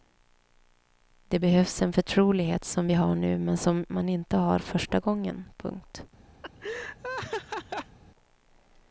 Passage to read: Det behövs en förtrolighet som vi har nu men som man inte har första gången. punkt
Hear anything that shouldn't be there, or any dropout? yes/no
yes